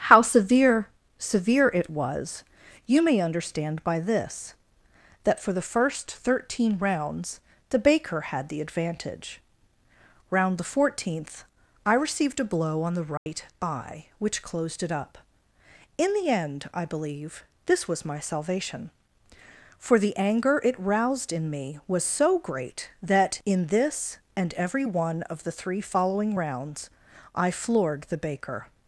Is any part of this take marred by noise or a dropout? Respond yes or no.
yes